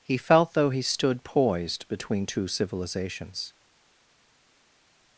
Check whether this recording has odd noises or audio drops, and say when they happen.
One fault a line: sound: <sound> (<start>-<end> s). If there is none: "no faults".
no faults